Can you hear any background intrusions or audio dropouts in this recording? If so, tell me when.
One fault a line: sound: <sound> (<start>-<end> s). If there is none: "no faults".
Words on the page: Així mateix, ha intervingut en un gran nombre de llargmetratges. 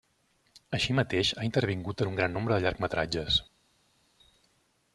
no faults